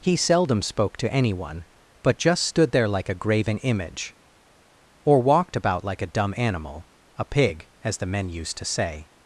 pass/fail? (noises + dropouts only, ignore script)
pass